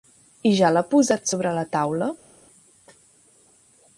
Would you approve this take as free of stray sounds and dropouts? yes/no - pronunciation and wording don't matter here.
yes